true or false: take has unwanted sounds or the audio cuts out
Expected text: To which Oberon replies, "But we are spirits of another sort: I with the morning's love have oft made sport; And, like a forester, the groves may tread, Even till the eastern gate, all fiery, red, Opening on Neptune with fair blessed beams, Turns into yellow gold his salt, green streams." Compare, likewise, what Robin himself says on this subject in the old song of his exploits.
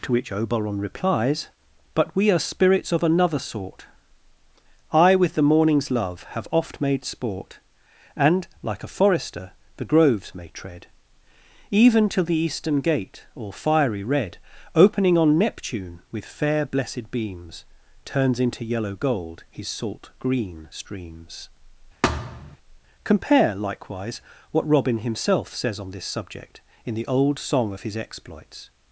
true